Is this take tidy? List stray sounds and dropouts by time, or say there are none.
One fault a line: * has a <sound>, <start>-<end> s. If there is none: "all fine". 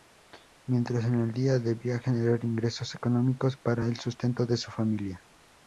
all fine